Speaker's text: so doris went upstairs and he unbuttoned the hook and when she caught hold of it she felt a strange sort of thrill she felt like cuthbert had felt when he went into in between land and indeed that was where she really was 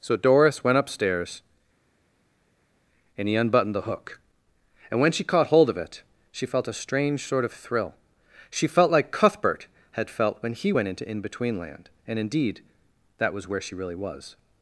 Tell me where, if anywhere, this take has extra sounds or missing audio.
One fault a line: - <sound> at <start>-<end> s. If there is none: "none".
none